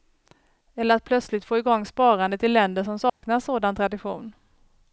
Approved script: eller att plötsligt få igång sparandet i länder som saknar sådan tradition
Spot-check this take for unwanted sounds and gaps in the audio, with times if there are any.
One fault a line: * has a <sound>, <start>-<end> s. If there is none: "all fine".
* has a dropout, 3.1-3.2 s